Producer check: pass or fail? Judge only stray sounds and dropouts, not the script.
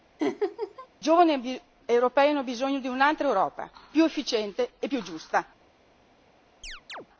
fail